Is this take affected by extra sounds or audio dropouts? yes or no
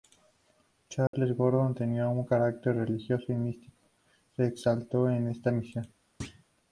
yes